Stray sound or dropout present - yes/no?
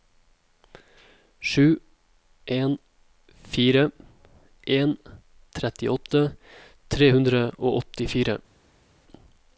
no